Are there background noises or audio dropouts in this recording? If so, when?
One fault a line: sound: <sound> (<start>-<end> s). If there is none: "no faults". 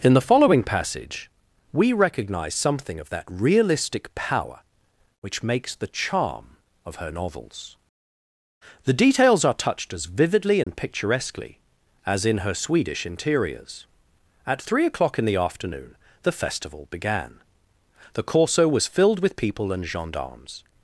sound: dropout (10.6-10.7 s)